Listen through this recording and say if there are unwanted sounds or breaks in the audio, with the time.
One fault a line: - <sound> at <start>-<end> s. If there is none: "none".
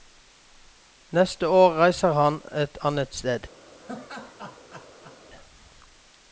- laugh at 3.8-5.2 s